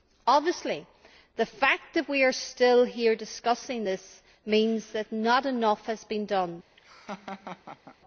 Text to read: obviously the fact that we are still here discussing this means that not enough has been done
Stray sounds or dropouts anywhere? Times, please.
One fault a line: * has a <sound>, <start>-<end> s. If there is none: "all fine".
* has a laugh, 6.8-8.0 s